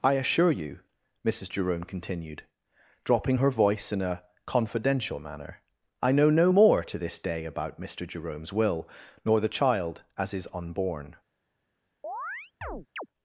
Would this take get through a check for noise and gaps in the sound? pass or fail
fail